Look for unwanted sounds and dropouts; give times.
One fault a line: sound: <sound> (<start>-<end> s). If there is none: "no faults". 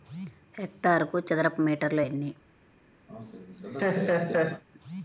sound: laugh (3.1-4.6 s)